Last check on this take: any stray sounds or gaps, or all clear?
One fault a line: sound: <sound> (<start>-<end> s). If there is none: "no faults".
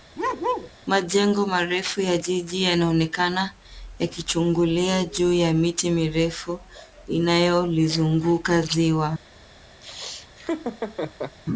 sound: bark (0.2-0.7 s)
sound: laugh (9.8-11.4 s)